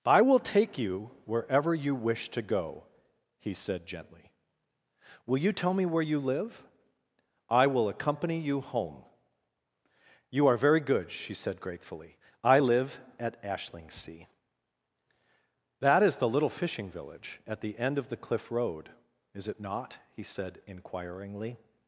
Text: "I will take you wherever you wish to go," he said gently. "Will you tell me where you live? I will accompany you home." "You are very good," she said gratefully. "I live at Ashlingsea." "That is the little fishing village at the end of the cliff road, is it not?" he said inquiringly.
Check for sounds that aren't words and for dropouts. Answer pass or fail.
pass